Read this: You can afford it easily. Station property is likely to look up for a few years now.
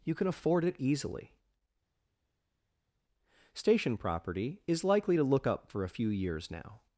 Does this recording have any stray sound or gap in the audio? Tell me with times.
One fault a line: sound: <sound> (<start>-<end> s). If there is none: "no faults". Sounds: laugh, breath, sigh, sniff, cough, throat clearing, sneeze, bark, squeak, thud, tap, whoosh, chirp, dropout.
no faults